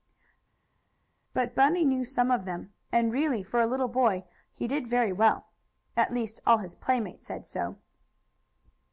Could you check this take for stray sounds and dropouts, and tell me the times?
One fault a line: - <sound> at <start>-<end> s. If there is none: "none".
none